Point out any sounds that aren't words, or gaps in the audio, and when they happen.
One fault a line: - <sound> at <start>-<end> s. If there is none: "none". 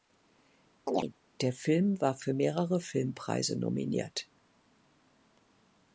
- chirp at 0.9-1.1 s